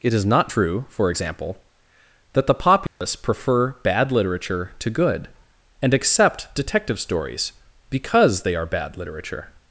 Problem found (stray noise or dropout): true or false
true